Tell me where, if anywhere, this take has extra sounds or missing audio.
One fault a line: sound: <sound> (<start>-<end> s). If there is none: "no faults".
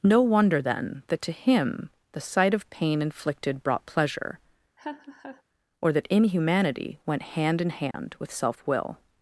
sound: laugh (4.8-5.4 s)
sound: dropout (7.9-7.9 s)